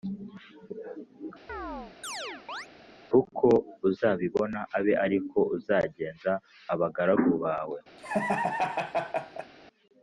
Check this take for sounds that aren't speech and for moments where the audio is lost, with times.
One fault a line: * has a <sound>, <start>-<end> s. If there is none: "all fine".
* has a chirp, 1.5-2.7 s
* has a laugh, 8.0-9.5 s